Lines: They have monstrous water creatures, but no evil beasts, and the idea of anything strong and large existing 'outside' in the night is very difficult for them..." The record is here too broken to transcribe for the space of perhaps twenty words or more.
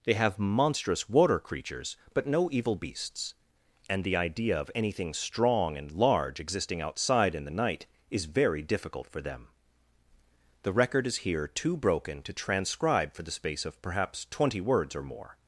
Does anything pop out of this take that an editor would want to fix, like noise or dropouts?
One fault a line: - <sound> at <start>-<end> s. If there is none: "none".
none